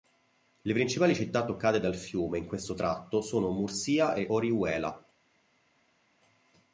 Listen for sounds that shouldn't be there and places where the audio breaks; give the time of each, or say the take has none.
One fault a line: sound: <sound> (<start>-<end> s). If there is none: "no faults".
no faults